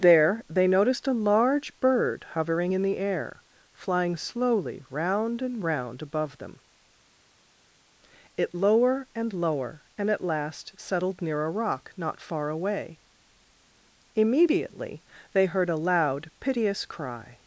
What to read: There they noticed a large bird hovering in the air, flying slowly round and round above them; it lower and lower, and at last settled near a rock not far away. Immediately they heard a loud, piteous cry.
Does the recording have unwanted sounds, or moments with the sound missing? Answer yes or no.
no